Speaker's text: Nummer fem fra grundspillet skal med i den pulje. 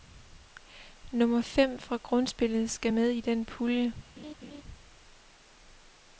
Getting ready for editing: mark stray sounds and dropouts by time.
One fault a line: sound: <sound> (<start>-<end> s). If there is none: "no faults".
sound: laugh (4.2-4.6 s)